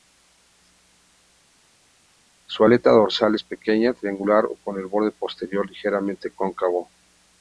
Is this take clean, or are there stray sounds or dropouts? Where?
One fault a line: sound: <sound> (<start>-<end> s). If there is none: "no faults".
no faults